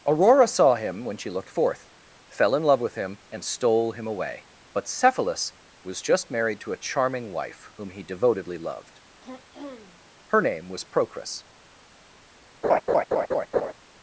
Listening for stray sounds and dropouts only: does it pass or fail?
fail